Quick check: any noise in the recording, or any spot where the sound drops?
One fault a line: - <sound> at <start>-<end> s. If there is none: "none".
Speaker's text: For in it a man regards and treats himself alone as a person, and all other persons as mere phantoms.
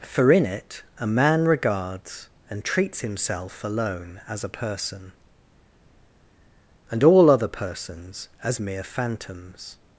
none